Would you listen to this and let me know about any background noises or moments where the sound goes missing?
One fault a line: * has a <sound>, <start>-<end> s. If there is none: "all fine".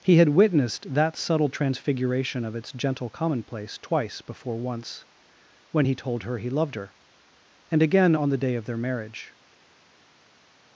all fine